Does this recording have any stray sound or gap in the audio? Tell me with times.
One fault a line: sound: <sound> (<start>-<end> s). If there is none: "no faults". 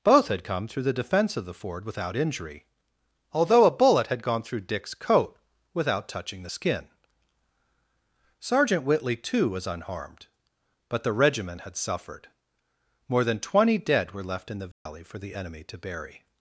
sound: dropout (14.7-14.9 s)